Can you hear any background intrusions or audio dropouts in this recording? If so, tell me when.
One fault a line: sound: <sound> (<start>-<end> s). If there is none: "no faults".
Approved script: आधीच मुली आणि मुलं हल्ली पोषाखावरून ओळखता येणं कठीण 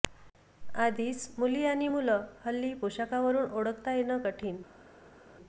no faults